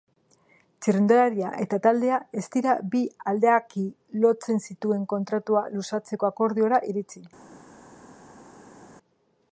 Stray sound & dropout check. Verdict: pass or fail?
pass